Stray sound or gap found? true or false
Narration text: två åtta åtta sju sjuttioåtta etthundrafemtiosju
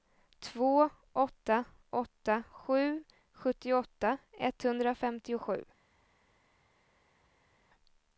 false